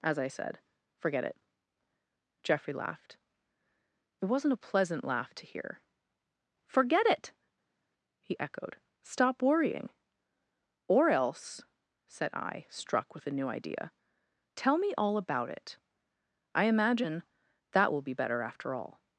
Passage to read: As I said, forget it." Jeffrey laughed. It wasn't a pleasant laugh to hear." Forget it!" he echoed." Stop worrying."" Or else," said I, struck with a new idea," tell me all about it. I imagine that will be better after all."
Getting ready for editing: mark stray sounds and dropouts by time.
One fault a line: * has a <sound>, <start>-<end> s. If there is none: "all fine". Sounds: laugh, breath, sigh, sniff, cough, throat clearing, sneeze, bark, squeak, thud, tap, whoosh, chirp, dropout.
all fine